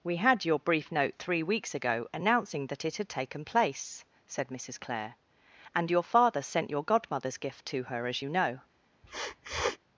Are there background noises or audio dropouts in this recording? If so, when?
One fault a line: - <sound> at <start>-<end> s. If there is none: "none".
- sniff at 9.0-9.8 s